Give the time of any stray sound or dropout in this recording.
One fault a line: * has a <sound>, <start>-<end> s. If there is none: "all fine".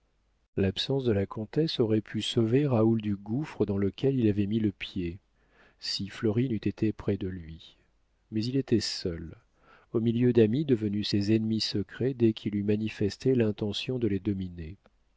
all fine